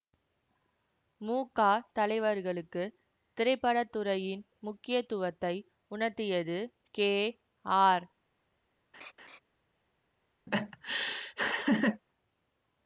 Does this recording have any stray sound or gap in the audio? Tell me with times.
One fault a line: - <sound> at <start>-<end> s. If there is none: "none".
- laugh at 8.9-9.4 s
- laugh at 10.5-12.0 s